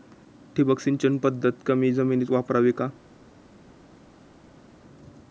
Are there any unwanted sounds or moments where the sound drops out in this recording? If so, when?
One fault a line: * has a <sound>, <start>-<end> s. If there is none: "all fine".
all fine